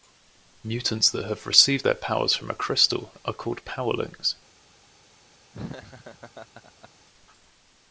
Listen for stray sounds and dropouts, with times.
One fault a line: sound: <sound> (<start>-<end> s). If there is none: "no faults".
sound: laugh (5.5-6.9 s)